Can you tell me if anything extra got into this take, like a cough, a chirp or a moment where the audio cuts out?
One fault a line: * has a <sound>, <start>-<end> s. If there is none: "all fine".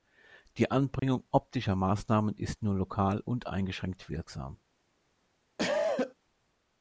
* has a dropout, 1.0-1.0 s
* has a cough, 5.6-6.1 s